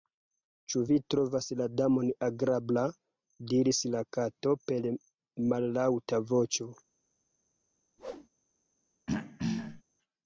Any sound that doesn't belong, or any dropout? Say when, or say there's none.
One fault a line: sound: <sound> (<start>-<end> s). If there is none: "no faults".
sound: whoosh (8.0-8.3 s)
sound: throat clearing (9.1-9.8 s)